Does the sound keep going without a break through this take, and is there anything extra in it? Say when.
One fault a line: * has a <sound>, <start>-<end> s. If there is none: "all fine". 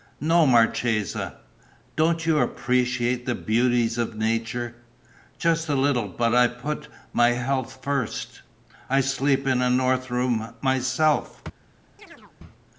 * has a chirp, 12.0-12.3 s